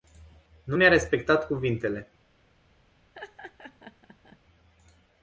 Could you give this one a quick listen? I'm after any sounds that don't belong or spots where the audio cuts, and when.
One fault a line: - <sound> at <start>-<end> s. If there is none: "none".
- laugh at 3.1-4.4 s